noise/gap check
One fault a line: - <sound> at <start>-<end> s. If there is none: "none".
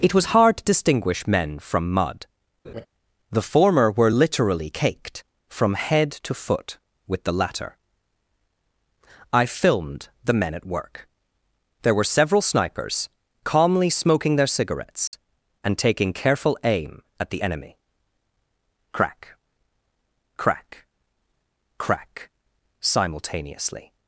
- laugh at 2.6-2.9 s
- dropout at 15.1-15.1 s